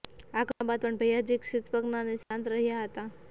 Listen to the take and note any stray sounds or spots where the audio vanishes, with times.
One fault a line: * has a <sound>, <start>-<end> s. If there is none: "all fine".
* has a dropout, 2.2-2.3 s